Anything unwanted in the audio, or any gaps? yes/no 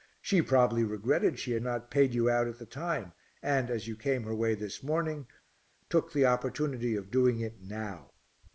no